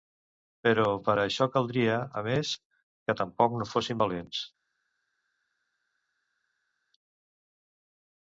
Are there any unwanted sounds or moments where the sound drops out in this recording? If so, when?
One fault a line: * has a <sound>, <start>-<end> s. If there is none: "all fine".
all fine